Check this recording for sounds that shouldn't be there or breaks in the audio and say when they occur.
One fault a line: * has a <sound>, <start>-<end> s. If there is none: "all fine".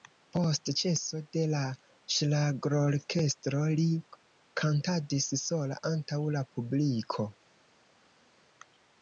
all fine